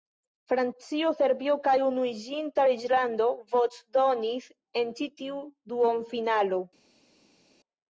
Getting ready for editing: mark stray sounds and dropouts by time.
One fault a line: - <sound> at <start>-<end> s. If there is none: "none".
none